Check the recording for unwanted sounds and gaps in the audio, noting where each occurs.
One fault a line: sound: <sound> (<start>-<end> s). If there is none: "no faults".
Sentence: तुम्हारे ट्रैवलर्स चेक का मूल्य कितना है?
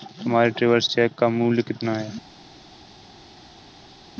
no faults